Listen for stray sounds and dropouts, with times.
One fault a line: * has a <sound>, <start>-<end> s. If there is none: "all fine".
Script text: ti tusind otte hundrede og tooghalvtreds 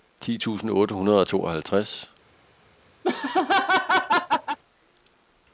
* has a laugh, 3.0-4.6 s